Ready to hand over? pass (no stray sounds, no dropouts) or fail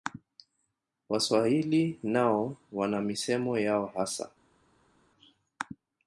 pass